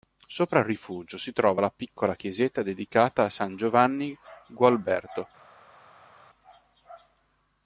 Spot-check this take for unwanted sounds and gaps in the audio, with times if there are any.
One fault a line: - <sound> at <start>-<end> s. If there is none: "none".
none